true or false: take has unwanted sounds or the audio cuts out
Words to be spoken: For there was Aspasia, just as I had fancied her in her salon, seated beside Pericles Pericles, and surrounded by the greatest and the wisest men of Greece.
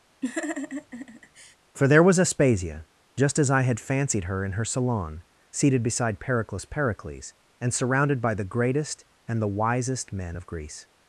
true